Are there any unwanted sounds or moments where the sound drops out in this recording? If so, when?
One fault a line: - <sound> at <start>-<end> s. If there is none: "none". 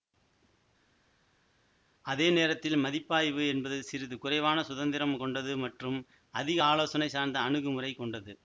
none